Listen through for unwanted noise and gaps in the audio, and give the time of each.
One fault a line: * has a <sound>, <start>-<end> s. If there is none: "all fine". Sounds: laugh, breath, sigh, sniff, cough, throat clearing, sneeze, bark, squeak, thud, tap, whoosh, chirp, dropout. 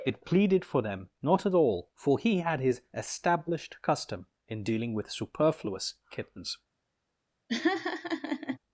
* has a laugh, 7.5-8.6 s